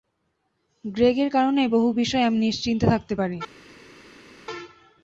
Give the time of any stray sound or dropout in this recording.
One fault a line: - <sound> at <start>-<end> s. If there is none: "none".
none